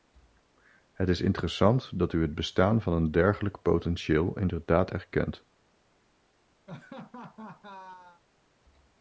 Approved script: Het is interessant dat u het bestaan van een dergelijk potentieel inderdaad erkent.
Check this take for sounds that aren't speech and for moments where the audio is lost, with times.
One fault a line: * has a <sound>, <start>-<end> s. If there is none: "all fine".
* has a laugh, 6.7-8.2 s